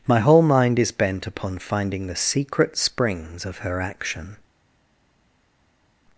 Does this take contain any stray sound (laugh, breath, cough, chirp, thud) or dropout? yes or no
no